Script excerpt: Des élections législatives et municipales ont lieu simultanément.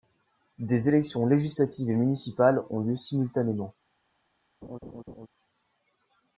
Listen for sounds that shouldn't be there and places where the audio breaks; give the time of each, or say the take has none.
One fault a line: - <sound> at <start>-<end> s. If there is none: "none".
- laugh at 4.6-5.3 s